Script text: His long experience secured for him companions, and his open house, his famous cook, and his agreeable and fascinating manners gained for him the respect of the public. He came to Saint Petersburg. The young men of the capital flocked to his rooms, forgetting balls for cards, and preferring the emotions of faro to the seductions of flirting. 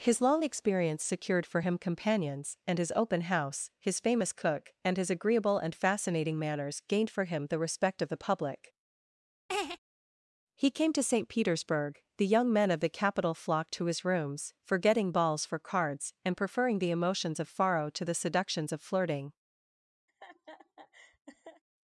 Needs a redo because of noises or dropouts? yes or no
yes